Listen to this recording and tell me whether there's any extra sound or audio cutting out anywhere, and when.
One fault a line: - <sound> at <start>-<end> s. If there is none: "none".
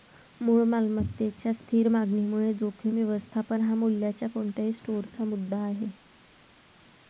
none